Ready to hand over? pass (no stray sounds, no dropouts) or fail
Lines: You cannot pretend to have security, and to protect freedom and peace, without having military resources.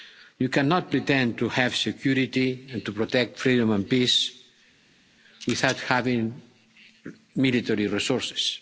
pass